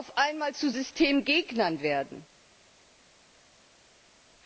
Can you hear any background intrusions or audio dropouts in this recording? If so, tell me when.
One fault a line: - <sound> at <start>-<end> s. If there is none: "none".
none